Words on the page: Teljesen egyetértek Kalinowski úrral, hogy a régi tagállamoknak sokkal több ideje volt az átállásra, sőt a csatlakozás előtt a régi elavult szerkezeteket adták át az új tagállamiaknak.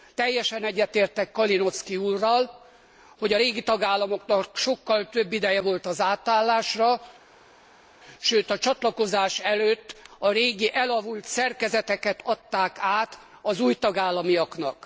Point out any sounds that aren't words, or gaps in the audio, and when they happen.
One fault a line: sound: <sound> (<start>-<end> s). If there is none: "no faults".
no faults